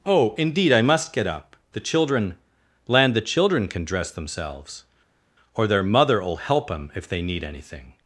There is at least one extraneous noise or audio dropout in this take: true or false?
false